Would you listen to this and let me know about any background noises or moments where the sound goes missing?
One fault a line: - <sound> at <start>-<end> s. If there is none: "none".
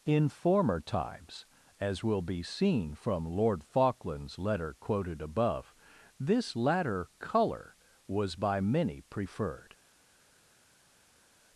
none